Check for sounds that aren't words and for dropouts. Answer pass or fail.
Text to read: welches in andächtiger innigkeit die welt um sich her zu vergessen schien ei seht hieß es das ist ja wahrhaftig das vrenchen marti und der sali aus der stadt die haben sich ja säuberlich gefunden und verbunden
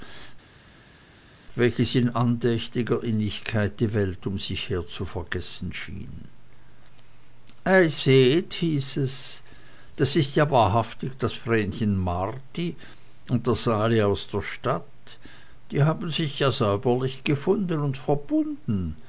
pass